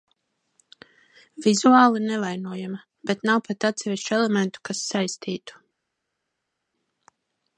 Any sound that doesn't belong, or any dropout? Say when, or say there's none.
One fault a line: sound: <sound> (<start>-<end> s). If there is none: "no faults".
no faults